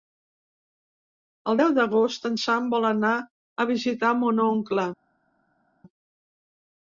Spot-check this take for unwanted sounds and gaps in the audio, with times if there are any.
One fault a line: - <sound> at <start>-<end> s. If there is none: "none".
none